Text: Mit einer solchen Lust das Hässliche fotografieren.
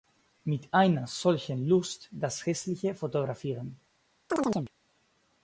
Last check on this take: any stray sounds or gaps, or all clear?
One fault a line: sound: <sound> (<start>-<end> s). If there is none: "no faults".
sound: chirp (4.3-4.7 s)